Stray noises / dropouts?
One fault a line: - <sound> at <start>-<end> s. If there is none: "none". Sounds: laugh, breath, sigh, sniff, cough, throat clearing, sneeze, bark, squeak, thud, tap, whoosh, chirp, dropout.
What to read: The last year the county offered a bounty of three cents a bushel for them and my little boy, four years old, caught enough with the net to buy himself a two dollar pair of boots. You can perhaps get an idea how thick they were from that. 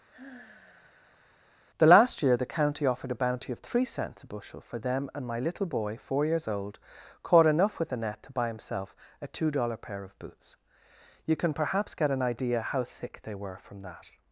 - sigh at 0.1-1.4 s